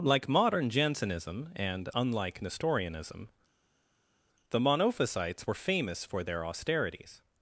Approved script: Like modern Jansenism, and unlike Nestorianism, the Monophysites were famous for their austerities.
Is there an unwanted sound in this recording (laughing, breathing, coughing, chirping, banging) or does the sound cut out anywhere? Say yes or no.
no